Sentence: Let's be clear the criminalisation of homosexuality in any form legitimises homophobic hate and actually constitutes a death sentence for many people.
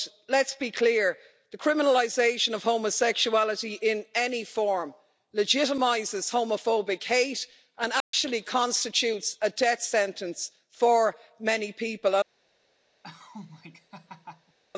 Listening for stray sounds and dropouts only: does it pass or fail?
fail